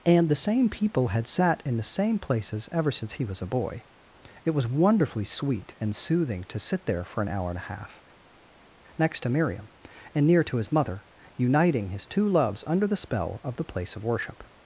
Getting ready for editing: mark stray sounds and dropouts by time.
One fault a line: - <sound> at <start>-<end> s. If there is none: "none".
none